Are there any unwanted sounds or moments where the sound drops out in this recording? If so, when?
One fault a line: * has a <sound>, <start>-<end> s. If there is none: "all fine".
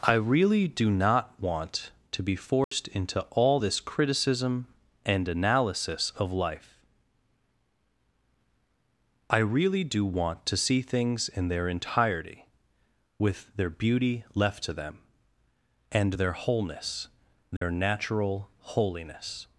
* has a dropout, 2.6-2.7 s
* has a dropout, 17.6-17.6 s